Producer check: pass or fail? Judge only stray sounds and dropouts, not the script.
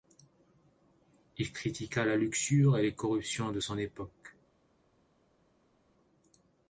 pass